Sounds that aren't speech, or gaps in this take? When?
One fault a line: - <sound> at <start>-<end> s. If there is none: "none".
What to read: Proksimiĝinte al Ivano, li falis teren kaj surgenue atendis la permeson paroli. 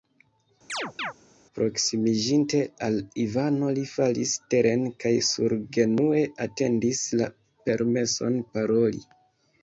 - chirp at 0.7-1.1 s